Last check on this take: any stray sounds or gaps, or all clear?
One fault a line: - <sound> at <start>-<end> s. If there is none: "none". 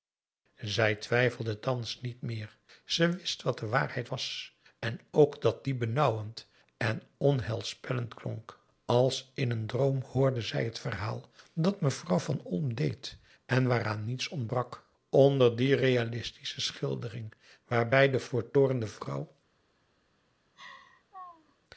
- laugh at 20.6-21.6 s